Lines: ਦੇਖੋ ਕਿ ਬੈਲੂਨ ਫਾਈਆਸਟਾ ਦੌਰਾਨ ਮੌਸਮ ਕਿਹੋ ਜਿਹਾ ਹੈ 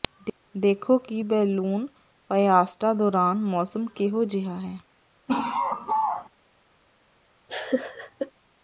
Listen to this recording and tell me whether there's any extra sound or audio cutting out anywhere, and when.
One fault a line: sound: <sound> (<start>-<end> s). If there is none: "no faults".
sound: laugh (5.3-6.3 s)
sound: laugh (7.5-8.3 s)